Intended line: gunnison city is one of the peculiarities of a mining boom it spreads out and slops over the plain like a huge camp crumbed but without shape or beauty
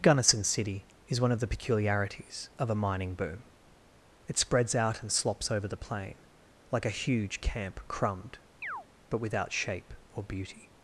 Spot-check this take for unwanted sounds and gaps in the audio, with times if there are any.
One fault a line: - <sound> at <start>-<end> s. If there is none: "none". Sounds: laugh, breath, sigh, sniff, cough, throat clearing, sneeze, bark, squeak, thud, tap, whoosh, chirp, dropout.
- chirp at 8.6-8.9 s